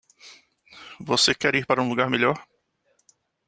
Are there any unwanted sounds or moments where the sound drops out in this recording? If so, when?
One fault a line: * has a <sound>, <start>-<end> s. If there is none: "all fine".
all fine